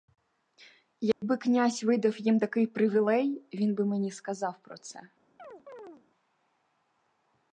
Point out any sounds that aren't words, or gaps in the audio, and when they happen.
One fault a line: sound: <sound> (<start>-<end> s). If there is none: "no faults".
sound: dropout (1.1-1.2 s)
sound: chirp (5.4-6.0 s)